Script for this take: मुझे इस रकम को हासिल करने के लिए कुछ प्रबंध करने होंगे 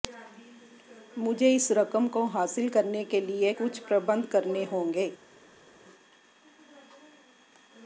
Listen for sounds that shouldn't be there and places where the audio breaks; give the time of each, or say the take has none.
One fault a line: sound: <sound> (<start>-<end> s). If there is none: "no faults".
no faults